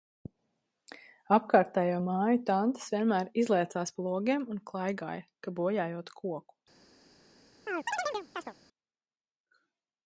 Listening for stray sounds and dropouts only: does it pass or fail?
fail